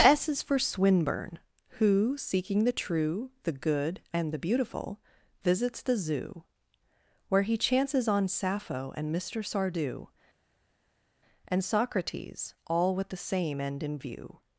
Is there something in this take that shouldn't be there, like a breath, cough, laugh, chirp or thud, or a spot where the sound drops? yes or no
no